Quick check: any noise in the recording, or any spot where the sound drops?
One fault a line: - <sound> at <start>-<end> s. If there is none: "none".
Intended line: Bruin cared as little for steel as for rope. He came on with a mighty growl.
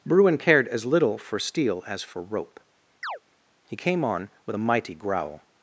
- chirp at 3.0-3.2 s